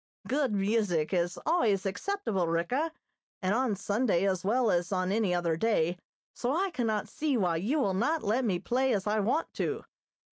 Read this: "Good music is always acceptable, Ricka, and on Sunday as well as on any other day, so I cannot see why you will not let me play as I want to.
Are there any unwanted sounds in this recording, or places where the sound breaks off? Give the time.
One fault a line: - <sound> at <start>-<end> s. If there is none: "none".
none